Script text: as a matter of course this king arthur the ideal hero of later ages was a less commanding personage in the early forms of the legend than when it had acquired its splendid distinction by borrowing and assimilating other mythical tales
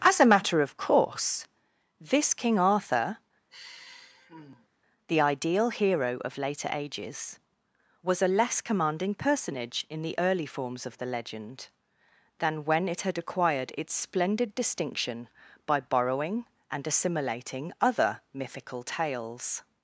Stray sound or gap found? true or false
true